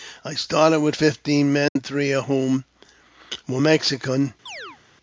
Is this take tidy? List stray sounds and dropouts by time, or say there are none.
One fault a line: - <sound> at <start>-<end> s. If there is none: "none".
- dropout at 1.7-1.8 s
- chirp at 4.5-4.8 s